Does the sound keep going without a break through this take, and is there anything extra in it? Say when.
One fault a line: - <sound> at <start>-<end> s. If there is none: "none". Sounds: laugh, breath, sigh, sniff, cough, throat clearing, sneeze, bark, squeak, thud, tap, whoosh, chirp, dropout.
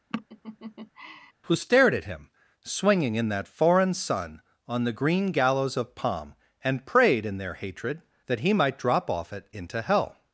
- laugh at 0.1-1.3 s